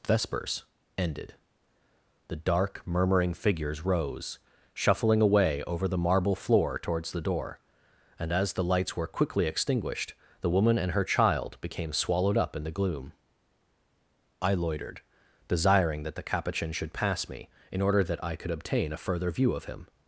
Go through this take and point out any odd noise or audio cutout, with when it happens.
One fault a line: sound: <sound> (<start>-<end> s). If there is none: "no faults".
no faults